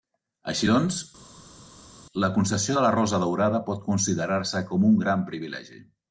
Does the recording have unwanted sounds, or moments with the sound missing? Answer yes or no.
no